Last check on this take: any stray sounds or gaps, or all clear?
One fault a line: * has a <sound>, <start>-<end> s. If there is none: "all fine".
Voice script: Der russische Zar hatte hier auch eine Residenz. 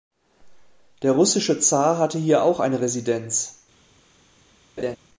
* has a laugh, 4.8-5.0 s